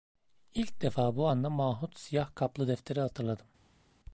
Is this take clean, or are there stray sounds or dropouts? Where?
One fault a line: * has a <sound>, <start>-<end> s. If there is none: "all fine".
all fine